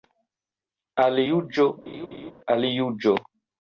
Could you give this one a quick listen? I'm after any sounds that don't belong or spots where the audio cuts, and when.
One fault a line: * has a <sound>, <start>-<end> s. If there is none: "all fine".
* has a laugh, 1.9-2.3 s